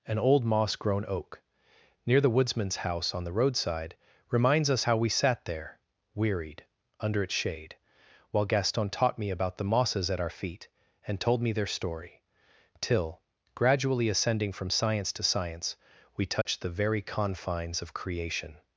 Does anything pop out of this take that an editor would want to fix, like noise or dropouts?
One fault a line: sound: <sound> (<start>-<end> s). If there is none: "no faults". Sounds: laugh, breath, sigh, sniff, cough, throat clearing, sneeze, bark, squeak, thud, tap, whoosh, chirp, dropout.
sound: dropout (16.4-16.5 s)